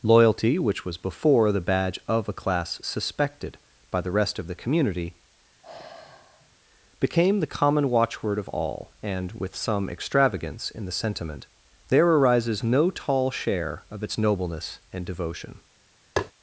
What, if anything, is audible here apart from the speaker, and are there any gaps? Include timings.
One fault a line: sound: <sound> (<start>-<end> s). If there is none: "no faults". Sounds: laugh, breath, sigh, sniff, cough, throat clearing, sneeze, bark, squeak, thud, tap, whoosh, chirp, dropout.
sound: sigh (5.6-6.6 s)
sound: tap (16.2-16.3 s)